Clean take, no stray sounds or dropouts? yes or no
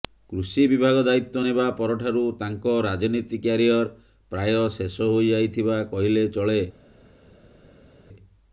yes